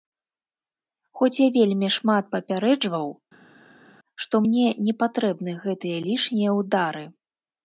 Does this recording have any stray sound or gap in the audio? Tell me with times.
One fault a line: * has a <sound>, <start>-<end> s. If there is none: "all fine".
all fine